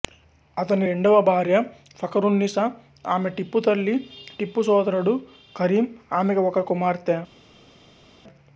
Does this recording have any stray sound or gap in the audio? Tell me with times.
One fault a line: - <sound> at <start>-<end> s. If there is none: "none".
none